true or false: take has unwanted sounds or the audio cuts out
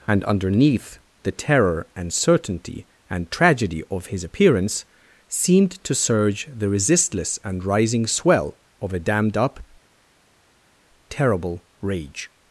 false